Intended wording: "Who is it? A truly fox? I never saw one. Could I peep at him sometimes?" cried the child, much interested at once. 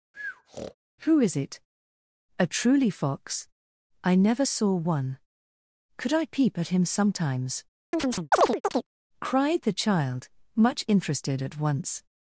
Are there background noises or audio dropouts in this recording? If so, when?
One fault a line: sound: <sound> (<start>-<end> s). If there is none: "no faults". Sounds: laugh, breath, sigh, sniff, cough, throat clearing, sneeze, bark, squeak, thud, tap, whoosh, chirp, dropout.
sound: breath (0.1-0.7 s)
sound: chirp (7.9-8.9 s)